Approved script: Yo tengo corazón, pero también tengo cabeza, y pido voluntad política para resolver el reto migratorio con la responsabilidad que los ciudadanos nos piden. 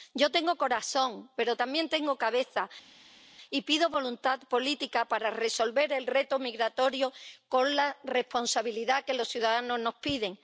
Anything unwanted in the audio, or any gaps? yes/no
no